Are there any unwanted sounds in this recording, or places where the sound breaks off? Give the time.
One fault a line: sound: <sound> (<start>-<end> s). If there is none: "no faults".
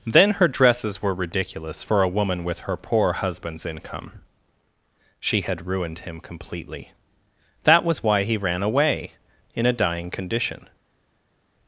no faults